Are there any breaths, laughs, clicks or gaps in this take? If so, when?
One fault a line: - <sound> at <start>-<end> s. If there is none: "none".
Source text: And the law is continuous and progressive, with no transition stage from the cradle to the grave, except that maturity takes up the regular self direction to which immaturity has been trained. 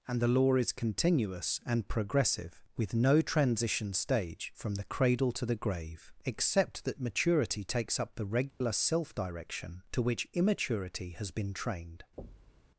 - dropout at 8.5-8.6 s
- thud at 12.2-12.7 s